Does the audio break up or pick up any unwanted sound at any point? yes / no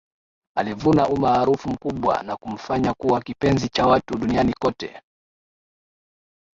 no